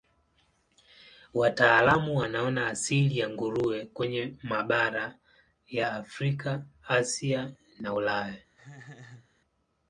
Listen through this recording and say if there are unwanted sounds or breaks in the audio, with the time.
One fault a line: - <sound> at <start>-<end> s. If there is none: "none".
- laugh at 8.5-9.3 s